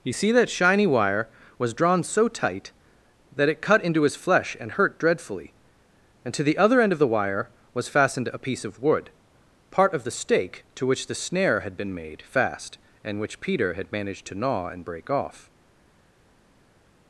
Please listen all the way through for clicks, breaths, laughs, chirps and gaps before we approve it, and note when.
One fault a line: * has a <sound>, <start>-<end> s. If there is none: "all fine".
all fine